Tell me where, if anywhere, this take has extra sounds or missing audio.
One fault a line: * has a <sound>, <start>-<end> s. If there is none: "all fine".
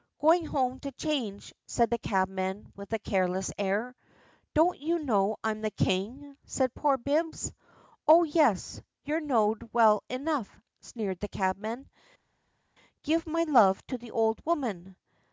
all fine